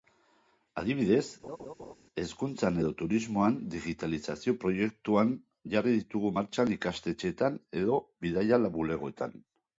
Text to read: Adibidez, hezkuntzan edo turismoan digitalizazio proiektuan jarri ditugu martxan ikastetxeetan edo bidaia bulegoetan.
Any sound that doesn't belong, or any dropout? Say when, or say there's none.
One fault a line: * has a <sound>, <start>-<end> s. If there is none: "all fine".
* has a laugh, 1.4-1.9 s